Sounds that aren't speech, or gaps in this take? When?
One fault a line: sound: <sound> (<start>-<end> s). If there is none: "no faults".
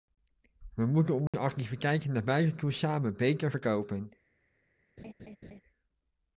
sound: dropout (1.3-1.3 s)
sound: laugh (5.0-5.6 s)